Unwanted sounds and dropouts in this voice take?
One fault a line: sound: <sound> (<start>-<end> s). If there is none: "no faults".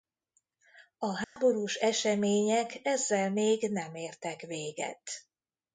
sound: dropout (1.2-1.4 s)